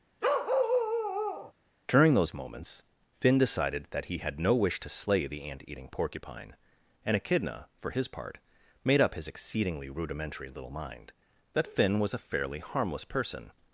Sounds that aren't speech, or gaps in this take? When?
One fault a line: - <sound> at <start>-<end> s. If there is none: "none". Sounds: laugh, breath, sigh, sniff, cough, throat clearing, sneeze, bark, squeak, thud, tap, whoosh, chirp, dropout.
- bark at 0.2-1.5 s